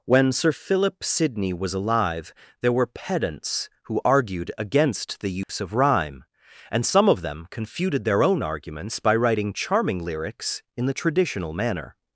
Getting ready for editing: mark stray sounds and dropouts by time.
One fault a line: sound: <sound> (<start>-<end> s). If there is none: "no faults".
sound: dropout (5.4-5.5 s)